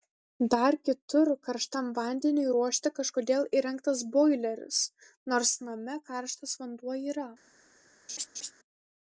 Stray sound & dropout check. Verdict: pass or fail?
fail